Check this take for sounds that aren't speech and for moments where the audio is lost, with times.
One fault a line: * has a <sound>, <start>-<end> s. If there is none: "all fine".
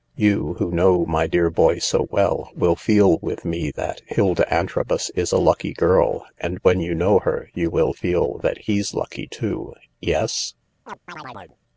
* has a chirp, 10.9-11.6 s